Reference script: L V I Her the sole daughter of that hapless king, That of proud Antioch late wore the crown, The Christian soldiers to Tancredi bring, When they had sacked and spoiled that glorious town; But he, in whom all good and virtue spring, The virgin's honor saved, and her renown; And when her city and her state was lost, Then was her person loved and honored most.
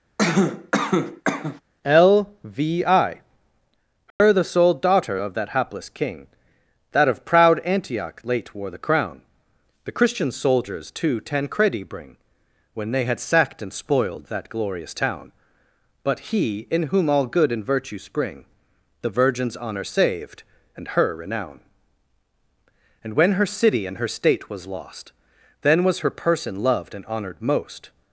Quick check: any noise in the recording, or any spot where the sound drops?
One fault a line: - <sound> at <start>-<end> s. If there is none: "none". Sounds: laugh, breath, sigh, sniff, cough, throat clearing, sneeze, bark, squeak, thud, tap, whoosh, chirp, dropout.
- cough at 0.2-1.6 s
- dropout at 4.1-4.2 s